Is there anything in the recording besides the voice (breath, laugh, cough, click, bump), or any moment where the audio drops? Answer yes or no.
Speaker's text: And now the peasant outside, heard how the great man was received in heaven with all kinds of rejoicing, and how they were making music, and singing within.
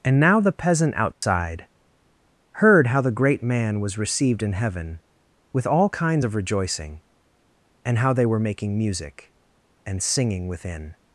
yes